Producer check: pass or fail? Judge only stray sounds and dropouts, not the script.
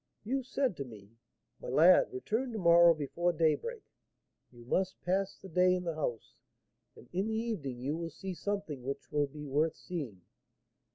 pass